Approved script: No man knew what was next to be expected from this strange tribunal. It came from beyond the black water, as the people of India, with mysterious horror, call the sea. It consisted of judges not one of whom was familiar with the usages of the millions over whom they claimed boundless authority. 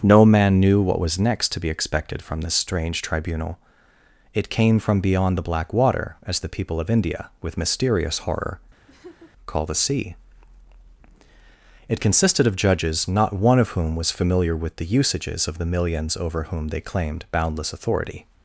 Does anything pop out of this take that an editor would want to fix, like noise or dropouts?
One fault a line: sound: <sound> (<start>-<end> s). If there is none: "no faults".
sound: laugh (8.9-9.3 s)